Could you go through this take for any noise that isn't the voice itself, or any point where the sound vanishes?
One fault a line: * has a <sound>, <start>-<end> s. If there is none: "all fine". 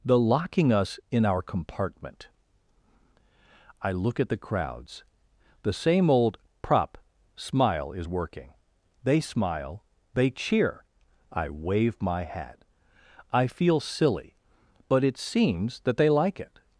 all fine